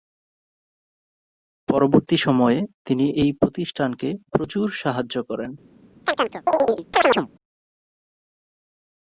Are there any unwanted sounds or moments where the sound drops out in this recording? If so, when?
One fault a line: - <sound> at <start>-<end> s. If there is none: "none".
- chirp at 6.0-7.3 s